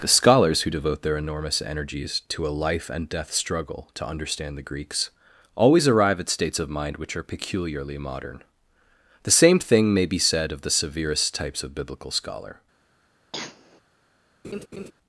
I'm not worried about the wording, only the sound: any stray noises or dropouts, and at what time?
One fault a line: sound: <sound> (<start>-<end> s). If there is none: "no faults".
sound: cough (13.3-13.8 s)
sound: laugh (14.4-14.9 s)